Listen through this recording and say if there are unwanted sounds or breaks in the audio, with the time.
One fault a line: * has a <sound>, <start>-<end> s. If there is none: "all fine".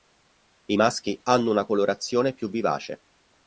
all fine